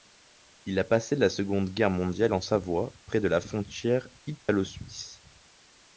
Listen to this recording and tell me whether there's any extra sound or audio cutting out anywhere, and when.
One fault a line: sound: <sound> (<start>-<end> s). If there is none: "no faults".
sound: dropout (4.4-4.5 s)